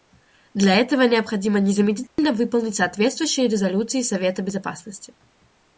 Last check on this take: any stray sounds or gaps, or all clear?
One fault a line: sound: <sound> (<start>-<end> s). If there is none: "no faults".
sound: dropout (2.1-2.2 s)